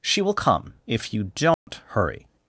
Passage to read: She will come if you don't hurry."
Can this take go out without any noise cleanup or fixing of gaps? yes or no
no